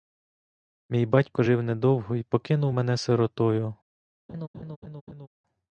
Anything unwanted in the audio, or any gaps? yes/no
yes